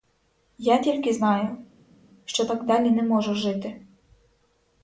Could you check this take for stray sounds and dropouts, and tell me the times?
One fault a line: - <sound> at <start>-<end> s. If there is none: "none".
none